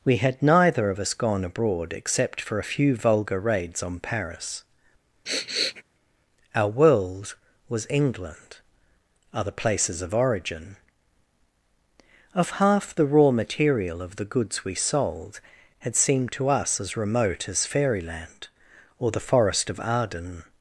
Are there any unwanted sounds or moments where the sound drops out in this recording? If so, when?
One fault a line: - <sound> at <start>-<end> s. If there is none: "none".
- sniff at 5.2-5.8 s